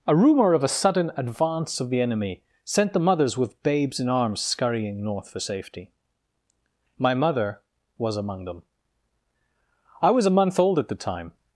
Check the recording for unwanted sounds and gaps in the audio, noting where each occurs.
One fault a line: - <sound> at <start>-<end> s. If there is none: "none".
none